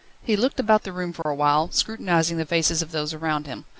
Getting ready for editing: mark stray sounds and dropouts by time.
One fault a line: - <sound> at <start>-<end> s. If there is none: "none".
- dropout at 1.2-1.3 s